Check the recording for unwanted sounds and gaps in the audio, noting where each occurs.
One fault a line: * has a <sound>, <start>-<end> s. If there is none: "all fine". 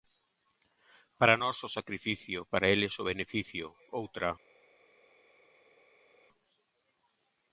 all fine